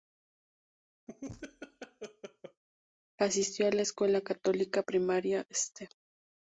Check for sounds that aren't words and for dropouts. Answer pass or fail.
fail